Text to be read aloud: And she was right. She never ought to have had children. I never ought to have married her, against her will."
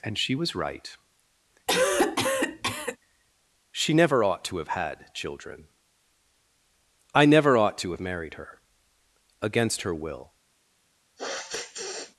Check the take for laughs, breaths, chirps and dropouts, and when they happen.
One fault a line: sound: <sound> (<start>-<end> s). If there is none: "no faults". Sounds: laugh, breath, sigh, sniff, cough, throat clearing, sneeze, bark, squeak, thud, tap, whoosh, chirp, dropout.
sound: cough (1.7-3.0 s)
sound: sniff (11.2-12.2 s)